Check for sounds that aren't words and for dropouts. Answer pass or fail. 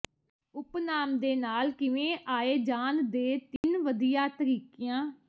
fail